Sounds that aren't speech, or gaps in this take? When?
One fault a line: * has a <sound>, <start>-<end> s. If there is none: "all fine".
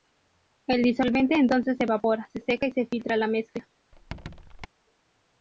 * has a squeak, 3.9-4.7 s